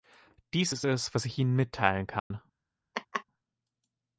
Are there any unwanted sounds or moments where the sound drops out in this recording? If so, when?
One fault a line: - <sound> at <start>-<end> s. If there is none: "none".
- dropout at 2.2-2.3 s
- laugh at 2.9-3.2 s